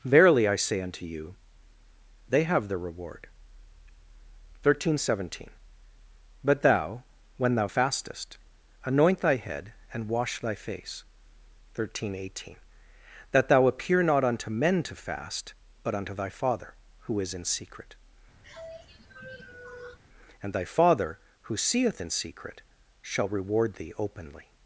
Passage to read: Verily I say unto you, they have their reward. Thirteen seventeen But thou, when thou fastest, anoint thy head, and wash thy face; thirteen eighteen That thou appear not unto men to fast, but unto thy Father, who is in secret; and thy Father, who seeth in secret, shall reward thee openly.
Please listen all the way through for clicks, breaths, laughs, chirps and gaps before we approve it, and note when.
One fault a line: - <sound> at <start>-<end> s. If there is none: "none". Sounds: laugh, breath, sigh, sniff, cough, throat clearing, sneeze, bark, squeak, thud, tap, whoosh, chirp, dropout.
- sigh at 18.4-20.0 s